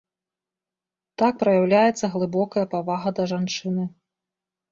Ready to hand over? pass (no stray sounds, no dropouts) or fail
pass